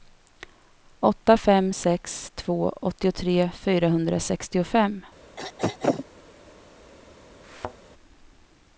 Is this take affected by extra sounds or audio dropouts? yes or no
yes